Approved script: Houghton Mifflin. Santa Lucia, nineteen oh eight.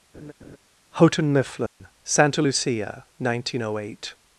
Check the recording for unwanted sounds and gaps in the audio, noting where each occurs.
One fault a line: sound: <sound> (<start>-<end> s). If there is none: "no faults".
sound: laugh (0.1-0.6 s)
sound: dropout (1.7-1.8 s)